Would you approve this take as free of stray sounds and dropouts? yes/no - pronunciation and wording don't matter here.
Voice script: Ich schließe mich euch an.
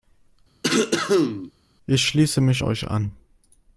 no